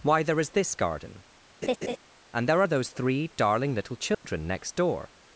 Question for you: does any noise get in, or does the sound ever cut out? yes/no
yes